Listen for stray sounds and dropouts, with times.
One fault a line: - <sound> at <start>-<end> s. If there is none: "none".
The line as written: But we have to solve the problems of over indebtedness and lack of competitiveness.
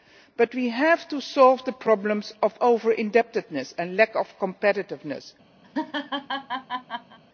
- laugh at 5.6-7.2 s